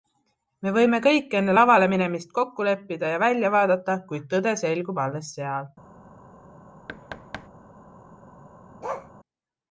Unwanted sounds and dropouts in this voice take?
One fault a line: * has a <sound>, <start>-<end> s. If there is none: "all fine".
* has a thud, 6.9-7.5 s
* has a bark, 8.8-9.1 s